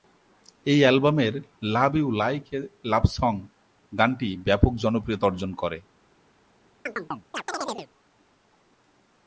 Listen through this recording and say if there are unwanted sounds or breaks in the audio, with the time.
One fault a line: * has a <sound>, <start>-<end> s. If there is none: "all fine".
* has a chirp, 6.9-7.9 s